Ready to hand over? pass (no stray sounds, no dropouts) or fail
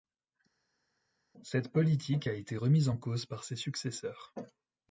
pass